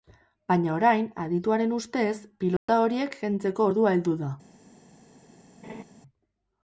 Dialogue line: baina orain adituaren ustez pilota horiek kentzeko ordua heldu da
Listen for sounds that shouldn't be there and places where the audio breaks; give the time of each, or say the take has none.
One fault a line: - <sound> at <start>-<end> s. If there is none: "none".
- dropout at 2.6-2.7 s
- laugh at 5.6-5.8 s